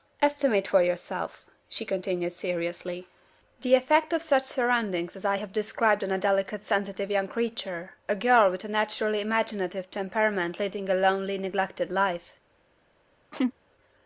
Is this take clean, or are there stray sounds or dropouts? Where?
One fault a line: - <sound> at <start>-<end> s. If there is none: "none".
- laugh at 13.3-13.5 s